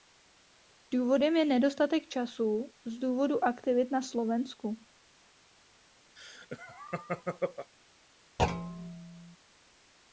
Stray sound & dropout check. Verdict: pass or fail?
fail